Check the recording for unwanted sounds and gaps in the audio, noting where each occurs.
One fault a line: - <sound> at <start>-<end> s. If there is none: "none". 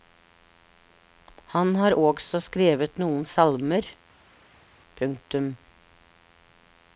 none